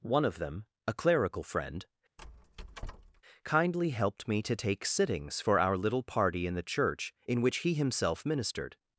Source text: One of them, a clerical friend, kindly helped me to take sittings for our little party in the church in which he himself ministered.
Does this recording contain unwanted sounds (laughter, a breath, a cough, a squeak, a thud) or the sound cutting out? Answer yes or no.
yes